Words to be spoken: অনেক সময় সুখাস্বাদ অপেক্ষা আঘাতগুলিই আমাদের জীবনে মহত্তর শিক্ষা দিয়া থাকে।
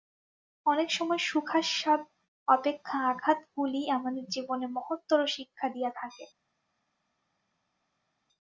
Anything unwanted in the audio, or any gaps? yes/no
no